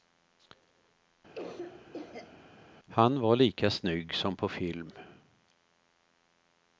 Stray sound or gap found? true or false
true